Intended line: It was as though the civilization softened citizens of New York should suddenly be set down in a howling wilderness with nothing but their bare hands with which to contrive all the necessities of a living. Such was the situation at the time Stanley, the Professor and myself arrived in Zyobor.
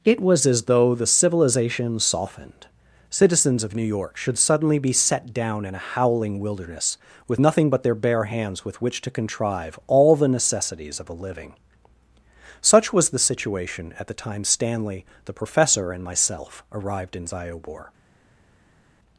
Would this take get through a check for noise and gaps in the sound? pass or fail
pass